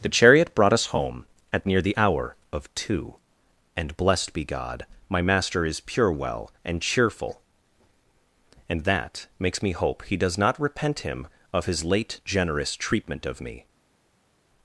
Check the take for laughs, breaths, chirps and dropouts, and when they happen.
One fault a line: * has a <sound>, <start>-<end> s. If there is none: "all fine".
all fine